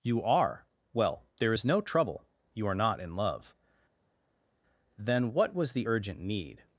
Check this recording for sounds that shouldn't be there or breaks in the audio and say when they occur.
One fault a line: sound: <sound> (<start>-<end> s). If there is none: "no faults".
no faults